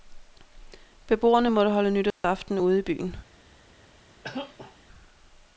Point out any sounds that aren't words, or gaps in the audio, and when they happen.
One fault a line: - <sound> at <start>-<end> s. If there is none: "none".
- dropout at 2.1-2.2 s
- cough at 4.2-4.8 s